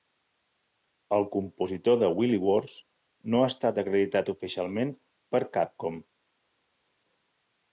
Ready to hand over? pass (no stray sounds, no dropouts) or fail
pass